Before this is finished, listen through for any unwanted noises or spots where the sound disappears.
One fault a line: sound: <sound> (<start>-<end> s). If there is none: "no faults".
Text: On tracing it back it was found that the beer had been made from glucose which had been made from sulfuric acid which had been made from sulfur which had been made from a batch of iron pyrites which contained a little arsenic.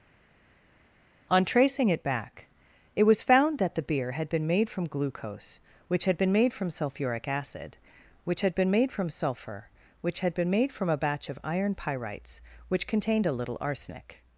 no faults